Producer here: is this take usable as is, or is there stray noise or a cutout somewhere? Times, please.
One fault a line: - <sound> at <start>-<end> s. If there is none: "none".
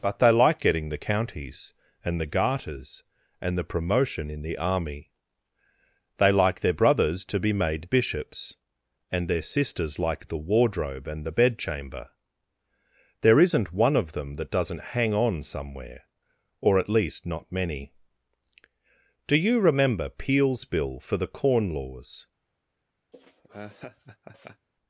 - laugh at 23.1-24.7 s